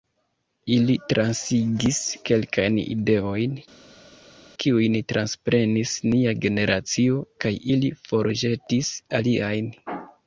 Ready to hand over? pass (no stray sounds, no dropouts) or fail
pass